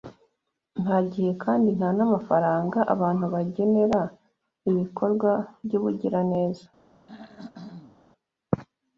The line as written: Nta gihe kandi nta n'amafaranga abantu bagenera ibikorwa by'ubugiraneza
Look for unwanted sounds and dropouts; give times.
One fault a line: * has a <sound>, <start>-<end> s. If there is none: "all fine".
* has a throat clearing, 7.1-8.0 s